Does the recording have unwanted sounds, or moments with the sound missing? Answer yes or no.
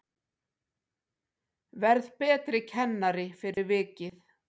yes